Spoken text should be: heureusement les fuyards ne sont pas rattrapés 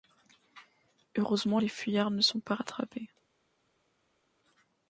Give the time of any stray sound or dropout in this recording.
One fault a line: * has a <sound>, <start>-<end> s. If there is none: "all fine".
all fine